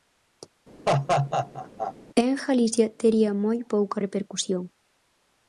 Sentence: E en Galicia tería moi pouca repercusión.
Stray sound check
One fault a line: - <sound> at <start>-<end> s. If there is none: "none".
- laugh at 0.9-1.9 s